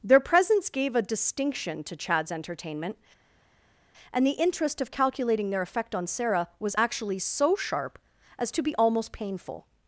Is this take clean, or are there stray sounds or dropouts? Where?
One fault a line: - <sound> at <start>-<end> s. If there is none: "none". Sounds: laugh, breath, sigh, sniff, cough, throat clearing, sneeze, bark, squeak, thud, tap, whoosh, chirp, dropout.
none